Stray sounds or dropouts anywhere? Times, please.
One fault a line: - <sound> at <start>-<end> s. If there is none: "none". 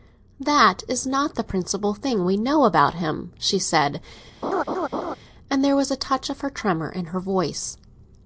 - laugh at 4.4-5.2 s